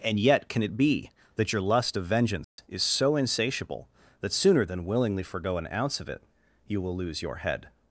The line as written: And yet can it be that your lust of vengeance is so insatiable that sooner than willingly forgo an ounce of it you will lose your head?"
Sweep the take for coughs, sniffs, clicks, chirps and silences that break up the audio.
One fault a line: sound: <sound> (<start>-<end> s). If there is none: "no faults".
sound: dropout (2.4-2.6 s)